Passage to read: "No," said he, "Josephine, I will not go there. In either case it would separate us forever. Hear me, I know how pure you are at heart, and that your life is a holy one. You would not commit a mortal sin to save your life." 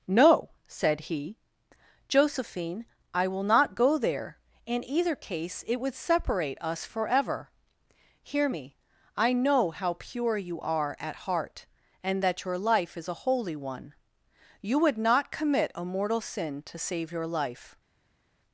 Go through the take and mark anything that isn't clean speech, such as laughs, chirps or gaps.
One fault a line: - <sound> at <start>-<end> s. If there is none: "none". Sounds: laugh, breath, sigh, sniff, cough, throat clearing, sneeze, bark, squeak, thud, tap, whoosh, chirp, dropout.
none